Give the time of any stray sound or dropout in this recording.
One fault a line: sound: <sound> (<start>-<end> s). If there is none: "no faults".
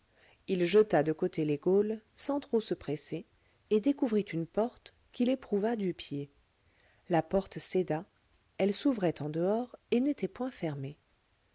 no faults